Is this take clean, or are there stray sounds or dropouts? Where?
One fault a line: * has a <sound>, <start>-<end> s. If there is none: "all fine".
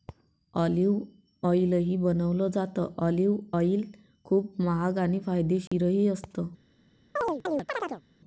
* has a dropout, 5.7-5.7 s
* has a chirp, 7.2-8.0 s